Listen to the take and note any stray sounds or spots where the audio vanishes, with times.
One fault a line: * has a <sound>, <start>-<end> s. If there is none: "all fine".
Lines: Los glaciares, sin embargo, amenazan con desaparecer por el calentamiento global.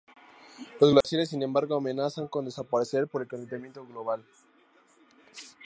* has a dropout, 1.0-1.0 s